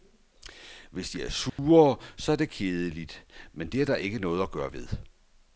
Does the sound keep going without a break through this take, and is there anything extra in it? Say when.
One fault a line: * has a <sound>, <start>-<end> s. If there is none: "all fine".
* has a dropout, 1.5-1.6 s